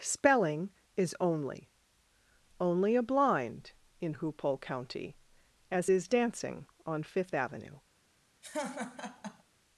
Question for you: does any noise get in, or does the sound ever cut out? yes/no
yes